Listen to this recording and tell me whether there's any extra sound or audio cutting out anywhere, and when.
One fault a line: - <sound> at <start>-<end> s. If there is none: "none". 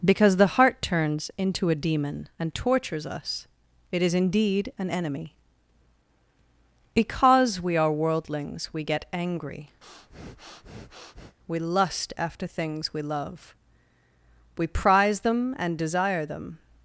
- breath at 9.8-11.4 s